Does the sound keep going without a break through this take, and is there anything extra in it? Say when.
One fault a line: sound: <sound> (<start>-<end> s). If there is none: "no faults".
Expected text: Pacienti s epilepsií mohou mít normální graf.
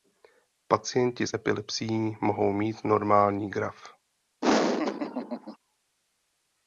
sound: laugh (4.4-5.6 s)